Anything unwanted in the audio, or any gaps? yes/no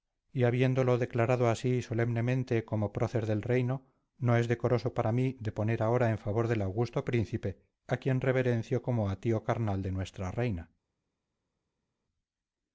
no